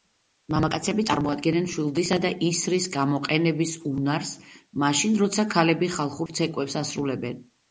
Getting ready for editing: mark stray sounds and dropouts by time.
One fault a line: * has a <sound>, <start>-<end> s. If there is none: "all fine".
* has a dropout, 6.3-6.3 s